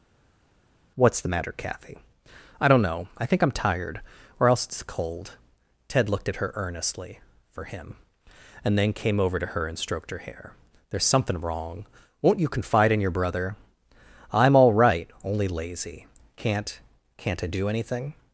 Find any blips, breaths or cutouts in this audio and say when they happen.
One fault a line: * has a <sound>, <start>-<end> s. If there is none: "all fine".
all fine